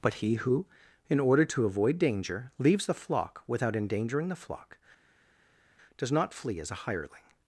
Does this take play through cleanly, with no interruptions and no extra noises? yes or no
yes